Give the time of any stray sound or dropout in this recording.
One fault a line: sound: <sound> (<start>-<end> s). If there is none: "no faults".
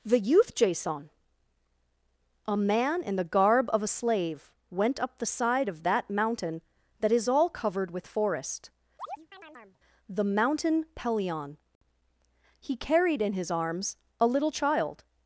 sound: chirp (9.0-9.8 s)